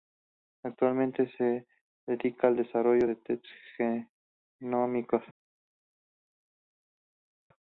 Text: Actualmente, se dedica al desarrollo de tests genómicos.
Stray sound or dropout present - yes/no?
no